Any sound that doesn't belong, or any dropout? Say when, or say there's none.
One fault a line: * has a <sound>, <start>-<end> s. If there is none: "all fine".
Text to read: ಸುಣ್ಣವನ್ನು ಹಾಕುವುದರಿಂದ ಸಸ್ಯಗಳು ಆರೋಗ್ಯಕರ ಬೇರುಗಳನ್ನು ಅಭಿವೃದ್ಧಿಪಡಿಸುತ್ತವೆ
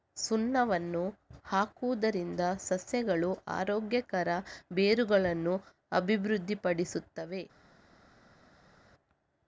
all fine